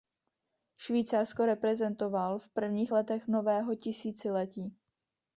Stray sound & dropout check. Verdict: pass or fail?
pass